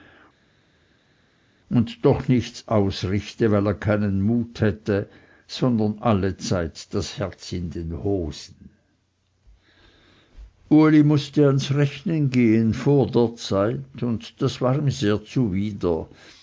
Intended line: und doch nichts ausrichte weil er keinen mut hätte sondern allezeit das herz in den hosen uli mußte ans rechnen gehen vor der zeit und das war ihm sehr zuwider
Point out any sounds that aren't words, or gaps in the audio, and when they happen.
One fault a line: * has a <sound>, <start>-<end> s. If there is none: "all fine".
all fine